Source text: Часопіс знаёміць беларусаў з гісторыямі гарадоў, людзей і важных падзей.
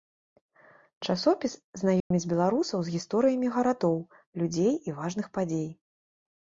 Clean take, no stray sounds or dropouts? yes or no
no